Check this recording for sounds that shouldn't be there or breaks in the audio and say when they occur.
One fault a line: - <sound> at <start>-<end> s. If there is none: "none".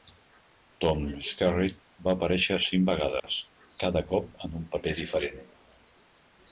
- dropout at 3.2-3.2 s